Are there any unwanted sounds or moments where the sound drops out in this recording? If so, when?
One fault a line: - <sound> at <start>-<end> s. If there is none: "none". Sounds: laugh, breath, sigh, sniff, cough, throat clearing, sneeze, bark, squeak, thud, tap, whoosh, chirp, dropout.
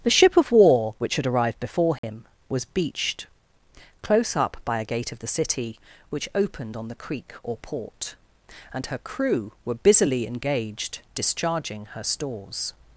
- dropout at 2.0-2.0 s